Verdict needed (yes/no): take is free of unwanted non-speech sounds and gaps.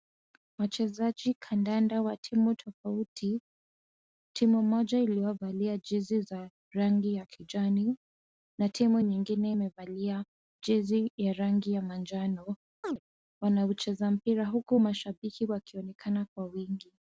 no